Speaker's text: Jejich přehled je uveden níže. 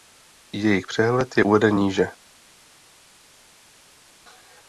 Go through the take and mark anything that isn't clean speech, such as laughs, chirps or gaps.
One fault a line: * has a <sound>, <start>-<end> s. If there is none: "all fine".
all fine